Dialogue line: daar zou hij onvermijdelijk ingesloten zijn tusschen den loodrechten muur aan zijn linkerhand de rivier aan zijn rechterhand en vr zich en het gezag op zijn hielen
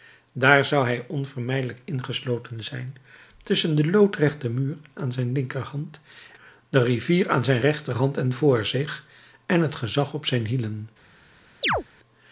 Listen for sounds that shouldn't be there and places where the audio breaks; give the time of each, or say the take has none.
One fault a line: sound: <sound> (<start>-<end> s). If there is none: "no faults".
sound: chirp (11.6-11.8 s)